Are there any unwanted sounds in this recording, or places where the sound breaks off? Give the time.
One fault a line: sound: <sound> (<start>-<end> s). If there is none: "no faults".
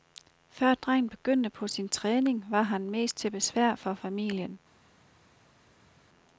no faults